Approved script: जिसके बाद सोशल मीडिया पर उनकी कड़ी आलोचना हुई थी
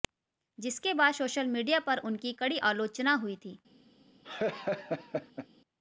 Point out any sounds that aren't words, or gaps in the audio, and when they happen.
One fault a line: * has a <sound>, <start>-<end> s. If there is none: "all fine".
* has a laugh, 4.2-5.5 s